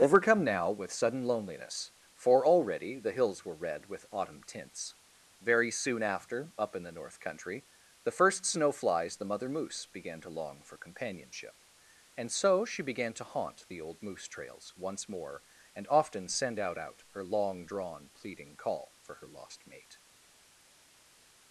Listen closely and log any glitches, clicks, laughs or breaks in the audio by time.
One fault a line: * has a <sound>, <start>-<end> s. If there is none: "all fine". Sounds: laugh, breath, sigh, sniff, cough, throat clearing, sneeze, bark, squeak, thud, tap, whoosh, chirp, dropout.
all fine